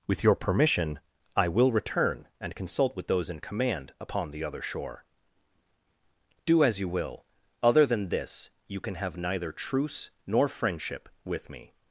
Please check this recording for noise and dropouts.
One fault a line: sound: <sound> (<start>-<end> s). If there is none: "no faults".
no faults